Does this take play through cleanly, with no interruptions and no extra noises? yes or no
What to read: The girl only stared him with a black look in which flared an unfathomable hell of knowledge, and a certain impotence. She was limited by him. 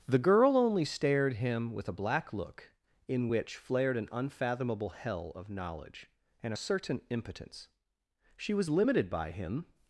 yes